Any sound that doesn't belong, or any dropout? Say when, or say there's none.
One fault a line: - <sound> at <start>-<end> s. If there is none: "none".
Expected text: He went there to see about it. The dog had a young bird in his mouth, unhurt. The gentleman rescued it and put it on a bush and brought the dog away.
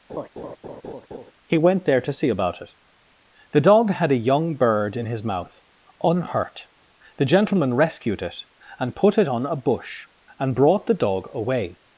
- laugh at 0.1-1.3 s